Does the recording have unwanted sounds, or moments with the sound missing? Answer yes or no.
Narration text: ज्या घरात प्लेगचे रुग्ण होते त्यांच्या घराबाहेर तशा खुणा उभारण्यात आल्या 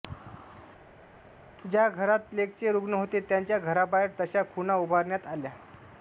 no